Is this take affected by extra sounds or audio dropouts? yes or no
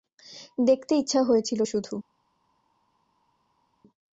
no